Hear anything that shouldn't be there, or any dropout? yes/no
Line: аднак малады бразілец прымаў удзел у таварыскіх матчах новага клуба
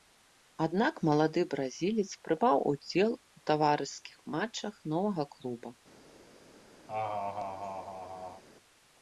yes